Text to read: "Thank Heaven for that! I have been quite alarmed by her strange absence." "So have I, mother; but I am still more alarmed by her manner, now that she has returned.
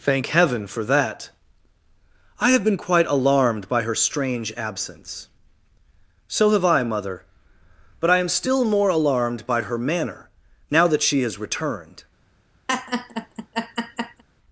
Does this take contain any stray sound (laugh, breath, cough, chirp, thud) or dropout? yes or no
yes